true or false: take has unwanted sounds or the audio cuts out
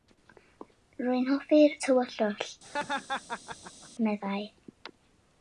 true